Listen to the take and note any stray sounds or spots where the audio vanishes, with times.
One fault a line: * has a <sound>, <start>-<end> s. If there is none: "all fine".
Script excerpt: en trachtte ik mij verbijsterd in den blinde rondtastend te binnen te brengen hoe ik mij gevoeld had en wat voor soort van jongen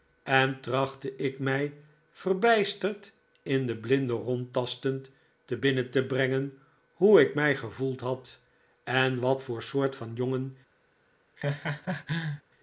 * has a laugh, 11.4-12.4 s